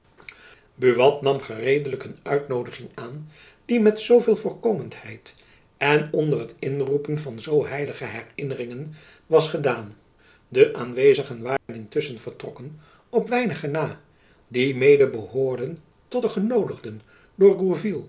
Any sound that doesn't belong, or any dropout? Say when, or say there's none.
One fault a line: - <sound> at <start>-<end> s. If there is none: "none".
- dropout at 11.6-11.7 s